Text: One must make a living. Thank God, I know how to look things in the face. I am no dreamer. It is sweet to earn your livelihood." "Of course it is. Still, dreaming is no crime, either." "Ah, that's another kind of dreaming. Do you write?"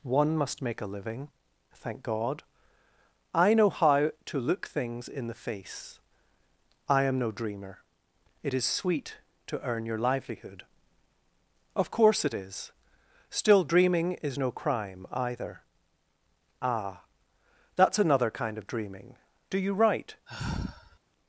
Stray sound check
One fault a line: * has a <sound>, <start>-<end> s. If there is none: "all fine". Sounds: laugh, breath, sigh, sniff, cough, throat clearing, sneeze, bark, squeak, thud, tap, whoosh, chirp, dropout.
* has a sigh, 20.3-21.0 s